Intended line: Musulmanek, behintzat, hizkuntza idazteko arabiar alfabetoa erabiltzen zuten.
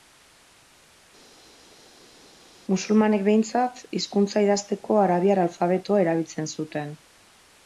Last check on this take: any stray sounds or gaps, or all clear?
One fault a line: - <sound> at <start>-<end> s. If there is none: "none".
none